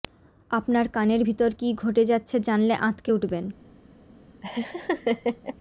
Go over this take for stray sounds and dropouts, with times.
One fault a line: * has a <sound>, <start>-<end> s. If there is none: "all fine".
* has a laugh, 4.4-5.6 s